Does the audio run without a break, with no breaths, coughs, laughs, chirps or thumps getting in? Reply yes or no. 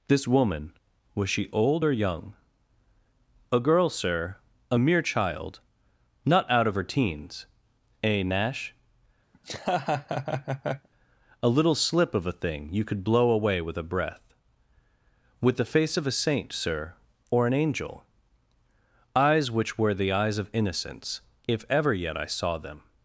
no